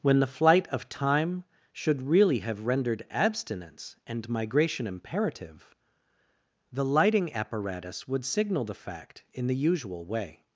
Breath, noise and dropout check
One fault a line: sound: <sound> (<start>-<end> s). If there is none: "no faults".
no faults